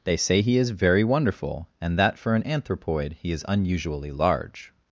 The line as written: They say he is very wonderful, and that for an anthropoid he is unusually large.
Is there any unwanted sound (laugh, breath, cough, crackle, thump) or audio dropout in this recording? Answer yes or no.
no